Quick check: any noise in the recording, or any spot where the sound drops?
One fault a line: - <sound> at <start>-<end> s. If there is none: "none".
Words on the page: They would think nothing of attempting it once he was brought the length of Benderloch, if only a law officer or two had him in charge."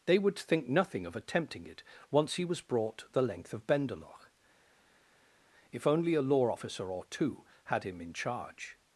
none